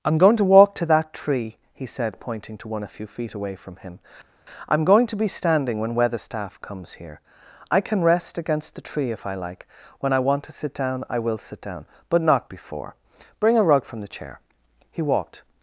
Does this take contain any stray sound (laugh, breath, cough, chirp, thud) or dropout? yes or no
no